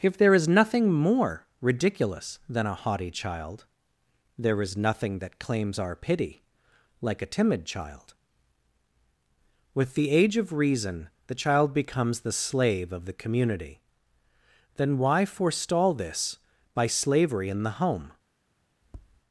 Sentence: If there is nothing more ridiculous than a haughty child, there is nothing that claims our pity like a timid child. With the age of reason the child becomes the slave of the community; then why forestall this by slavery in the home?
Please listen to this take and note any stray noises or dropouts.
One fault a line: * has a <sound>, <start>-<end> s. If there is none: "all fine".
* has a tap, 18.8-19.2 s